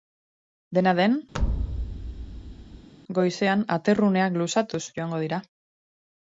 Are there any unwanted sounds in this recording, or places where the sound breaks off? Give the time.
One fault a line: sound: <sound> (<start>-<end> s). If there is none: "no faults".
sound: thud (1.3-2.9 s)